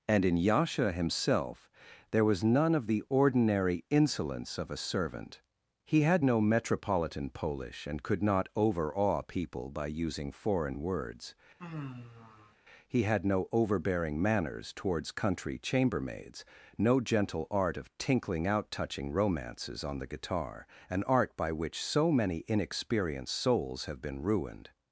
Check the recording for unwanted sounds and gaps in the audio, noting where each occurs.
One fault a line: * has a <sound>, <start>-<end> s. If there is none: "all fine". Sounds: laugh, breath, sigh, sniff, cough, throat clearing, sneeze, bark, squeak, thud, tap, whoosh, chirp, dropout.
* has a sigh, 11.6-12.6 s